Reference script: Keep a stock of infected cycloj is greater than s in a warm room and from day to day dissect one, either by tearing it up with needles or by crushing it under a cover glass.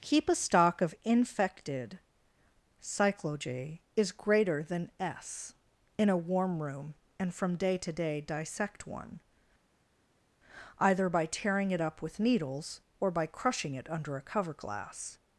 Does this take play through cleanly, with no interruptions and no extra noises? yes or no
yes